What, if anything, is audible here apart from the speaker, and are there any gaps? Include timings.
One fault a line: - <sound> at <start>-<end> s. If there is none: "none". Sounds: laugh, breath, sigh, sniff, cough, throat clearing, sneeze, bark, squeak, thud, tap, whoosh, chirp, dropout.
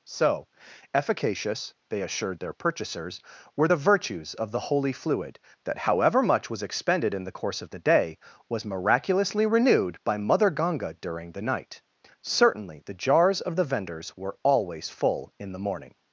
none